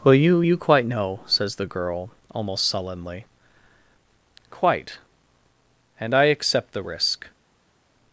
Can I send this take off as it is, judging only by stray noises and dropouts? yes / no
yes